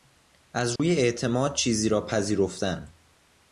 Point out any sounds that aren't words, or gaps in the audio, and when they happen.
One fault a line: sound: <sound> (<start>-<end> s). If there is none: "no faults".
sound: dropout (0.8-0.8 s)